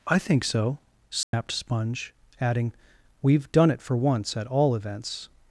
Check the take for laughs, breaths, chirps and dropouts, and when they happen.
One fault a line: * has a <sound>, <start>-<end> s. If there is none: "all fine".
* has a dropout, 1.2-1.3 s